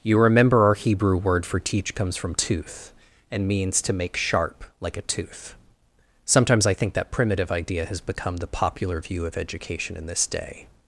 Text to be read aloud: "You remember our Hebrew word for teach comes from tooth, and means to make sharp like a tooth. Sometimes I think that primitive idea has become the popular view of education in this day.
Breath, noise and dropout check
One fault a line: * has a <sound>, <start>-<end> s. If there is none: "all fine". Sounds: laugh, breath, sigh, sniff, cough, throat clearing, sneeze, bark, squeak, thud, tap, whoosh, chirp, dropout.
all fine